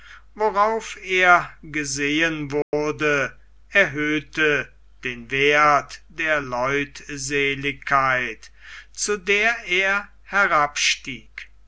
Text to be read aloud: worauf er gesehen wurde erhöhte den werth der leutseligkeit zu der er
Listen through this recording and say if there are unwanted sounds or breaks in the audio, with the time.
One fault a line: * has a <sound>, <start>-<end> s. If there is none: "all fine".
* has a dropout, 2.6-2.7 s